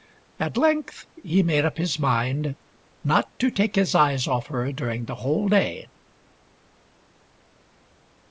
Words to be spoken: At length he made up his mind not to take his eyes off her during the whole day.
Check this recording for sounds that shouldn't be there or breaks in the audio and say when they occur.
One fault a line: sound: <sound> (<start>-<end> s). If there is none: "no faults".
no faults